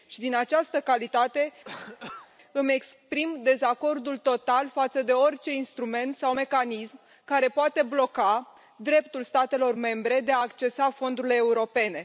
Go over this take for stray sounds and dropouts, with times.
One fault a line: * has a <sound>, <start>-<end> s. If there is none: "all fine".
* has a cough, 1.6-2.3 s